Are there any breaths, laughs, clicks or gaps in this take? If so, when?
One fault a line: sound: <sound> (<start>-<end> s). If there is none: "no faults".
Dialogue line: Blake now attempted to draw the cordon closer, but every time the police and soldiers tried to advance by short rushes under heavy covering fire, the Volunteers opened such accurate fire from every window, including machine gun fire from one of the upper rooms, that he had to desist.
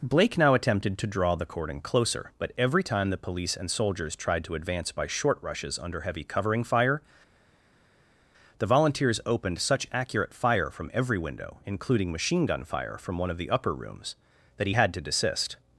no faults